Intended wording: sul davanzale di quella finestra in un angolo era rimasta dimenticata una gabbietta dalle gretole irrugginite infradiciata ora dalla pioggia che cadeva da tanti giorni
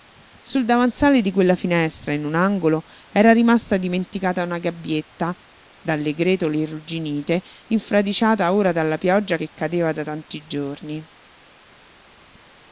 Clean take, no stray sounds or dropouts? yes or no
yes